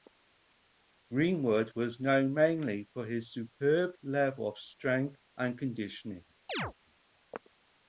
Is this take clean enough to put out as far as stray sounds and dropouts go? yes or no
no